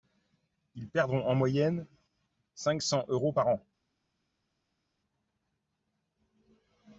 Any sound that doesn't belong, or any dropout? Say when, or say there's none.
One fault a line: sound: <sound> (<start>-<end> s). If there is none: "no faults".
no faults